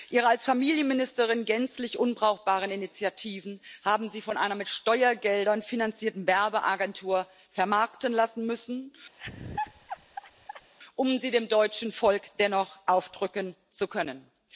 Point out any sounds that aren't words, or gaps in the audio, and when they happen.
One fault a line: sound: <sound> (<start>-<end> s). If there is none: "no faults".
sound: laugh (9.2-10.7 s)